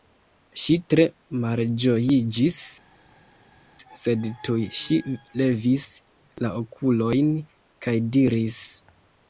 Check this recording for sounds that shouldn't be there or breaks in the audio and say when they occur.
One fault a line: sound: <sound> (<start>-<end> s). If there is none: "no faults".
no faults